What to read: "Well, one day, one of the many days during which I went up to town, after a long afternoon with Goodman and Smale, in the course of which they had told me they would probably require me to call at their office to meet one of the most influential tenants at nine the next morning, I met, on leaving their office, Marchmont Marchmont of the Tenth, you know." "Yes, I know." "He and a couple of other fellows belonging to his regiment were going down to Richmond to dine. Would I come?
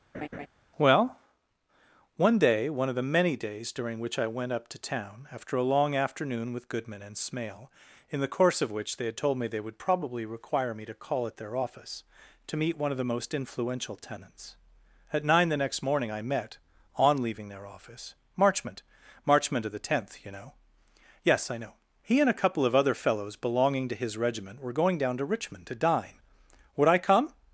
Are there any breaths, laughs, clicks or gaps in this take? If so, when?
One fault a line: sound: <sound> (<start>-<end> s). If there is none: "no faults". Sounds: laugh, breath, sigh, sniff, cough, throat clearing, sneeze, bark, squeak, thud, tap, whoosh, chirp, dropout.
sound: laugh (0.1-0.5 s)